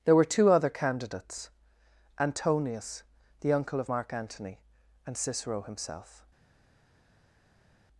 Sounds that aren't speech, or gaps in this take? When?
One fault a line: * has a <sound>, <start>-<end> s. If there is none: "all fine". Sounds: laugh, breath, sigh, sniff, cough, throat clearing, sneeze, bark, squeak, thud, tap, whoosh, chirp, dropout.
all fine